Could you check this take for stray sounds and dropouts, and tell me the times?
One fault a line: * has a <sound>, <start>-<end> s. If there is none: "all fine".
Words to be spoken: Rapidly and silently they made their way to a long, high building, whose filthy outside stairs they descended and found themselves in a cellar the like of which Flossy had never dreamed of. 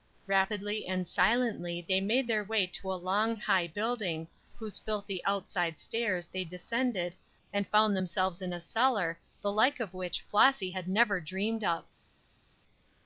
all fine